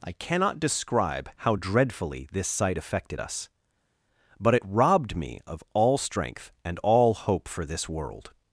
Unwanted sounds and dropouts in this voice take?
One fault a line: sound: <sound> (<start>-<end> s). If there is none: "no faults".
no faults